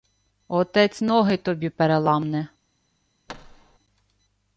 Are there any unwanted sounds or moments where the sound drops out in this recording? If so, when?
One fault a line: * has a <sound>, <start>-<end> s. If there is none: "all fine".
* has a thud, 3.3-3.8 s